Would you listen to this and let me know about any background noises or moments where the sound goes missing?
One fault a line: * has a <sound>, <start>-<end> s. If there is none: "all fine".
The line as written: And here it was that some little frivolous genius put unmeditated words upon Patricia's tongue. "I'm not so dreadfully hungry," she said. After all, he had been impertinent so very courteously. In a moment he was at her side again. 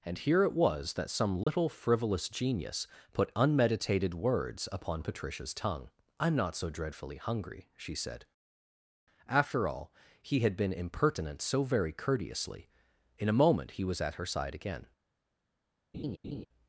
* has a dropout, 1.4-1.5 s
* has a laugh, 15.9-16.5 s